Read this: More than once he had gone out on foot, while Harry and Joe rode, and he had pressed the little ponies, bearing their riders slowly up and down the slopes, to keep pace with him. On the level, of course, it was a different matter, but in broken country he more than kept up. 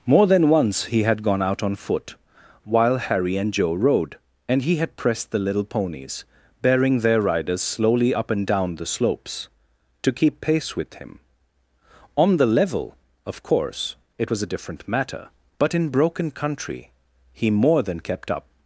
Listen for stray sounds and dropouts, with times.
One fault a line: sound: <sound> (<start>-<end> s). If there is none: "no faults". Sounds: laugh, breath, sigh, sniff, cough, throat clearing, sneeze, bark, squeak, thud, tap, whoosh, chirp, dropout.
no faults